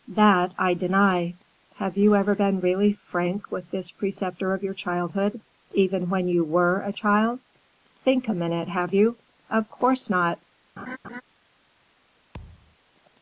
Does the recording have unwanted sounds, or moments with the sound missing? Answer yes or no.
yes